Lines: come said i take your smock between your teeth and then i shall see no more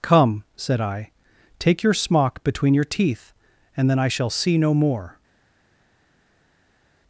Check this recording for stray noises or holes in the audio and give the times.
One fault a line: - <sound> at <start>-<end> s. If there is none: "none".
none